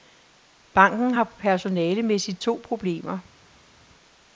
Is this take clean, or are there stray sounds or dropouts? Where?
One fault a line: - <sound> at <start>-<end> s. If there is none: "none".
none